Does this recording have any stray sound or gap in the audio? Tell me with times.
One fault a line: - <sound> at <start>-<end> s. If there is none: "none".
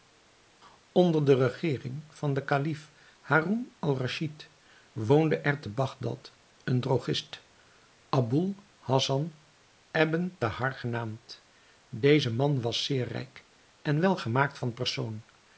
none